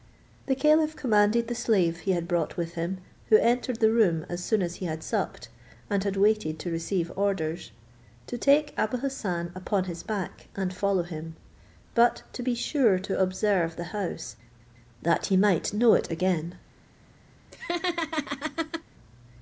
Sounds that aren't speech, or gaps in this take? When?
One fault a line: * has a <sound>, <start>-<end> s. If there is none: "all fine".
* has a laugh, 17.5-18.8 s